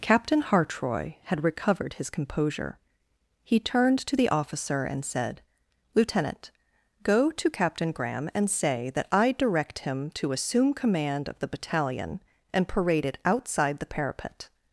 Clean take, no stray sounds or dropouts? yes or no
yes